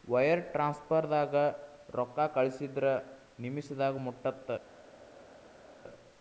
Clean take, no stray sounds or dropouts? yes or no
yes